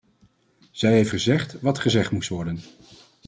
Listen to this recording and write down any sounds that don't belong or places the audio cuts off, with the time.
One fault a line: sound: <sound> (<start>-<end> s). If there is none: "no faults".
no faults